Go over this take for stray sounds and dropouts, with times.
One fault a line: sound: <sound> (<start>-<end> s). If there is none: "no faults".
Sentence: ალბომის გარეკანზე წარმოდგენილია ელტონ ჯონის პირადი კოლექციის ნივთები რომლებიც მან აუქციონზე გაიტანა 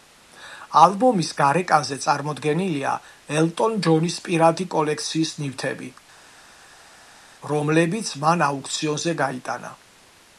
no faults